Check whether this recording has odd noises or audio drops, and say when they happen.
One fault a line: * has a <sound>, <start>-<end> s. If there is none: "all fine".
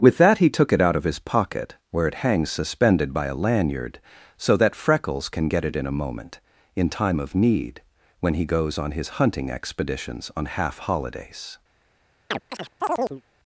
* has a chirp, 12.3-13.2 s